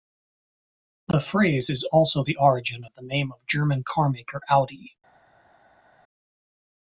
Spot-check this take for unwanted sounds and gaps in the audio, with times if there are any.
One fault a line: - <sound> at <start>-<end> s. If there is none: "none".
none